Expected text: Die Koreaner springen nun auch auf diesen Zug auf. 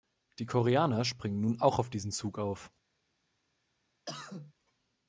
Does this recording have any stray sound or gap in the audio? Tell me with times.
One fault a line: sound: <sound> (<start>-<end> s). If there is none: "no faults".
sound: cough (4.1-4.5 s)